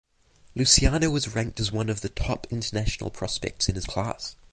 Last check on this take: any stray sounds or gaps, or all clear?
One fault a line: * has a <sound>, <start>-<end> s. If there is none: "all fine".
all fine